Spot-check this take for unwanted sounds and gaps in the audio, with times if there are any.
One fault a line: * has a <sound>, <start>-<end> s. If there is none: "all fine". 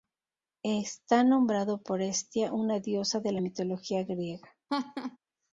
* has a laugh, 4.7-5.2 s